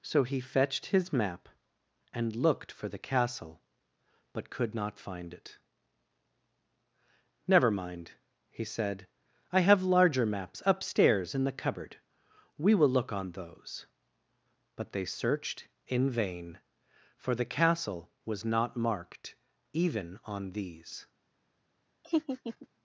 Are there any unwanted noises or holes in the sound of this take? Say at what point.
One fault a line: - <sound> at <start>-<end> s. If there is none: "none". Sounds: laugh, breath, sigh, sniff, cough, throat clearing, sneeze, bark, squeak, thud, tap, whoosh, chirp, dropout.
- laugh at 22.0-22.7 s